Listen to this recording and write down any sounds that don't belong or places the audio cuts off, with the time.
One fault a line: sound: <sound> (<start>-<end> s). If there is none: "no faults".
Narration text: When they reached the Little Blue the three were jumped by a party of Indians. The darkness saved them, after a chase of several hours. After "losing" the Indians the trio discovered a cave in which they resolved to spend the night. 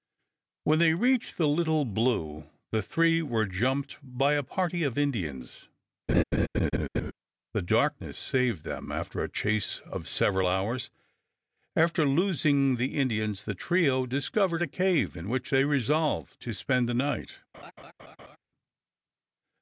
sound: laugh (6.1-7.1 s)
sound: laugh (17.5-18.4 s)